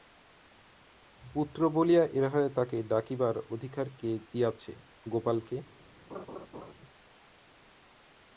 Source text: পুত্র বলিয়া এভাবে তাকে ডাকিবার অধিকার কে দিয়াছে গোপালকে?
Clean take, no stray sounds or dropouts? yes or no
no